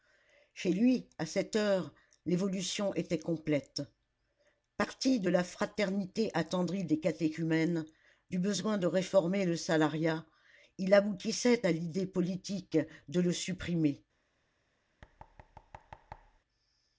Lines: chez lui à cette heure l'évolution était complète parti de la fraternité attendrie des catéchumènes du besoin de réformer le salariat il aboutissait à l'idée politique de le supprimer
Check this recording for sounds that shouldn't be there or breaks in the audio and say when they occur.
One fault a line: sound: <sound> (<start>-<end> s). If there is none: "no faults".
sound: thud (15.0-16.4 s)